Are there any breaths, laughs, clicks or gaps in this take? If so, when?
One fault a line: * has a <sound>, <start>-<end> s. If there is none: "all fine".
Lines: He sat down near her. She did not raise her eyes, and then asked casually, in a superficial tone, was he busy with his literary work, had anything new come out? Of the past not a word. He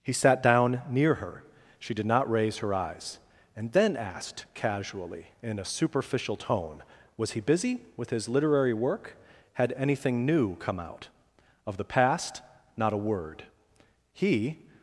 all fine